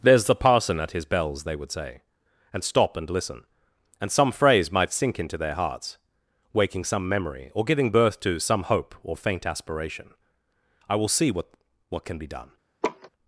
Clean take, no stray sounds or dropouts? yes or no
no